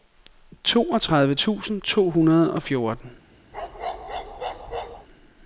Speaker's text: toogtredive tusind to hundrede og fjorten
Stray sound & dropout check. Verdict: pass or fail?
fail